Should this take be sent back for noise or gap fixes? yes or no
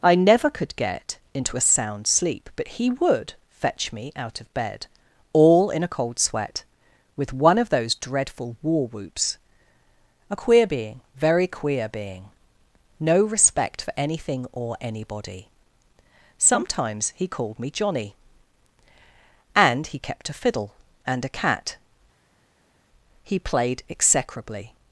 no